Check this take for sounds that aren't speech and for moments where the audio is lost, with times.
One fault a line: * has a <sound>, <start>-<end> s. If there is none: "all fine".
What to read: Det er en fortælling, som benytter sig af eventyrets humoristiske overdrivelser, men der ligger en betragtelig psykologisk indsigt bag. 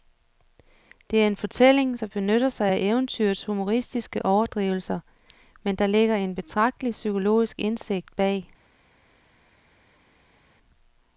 all fine